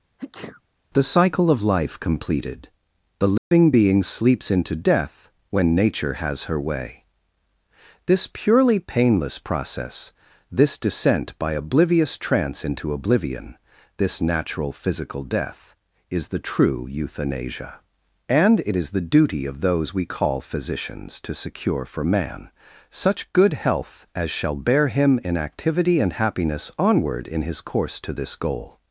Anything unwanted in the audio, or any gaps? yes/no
yes